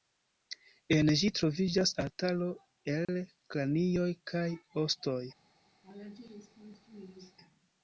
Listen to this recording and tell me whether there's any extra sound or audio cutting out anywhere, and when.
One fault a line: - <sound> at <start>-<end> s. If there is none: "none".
- dropout at 3.0-3.1 s
- laugh at 5.8-7.4 s